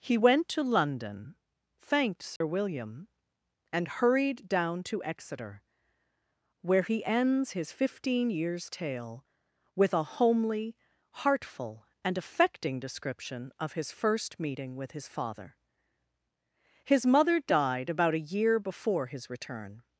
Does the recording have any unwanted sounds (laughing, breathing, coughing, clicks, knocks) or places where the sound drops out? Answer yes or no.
yes